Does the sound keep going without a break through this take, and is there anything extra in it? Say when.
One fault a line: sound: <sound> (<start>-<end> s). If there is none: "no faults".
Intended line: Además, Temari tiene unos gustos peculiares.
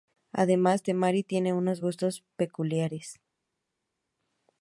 no faults